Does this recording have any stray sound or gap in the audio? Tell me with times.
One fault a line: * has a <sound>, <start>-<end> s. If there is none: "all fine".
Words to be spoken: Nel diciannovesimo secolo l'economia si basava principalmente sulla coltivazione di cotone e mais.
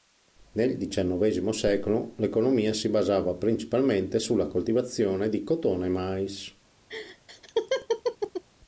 * has a laugh, 6.9-8.4 s